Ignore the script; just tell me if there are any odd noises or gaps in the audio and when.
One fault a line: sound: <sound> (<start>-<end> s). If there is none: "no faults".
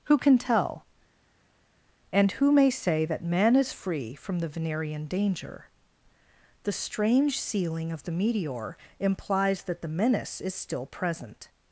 no faults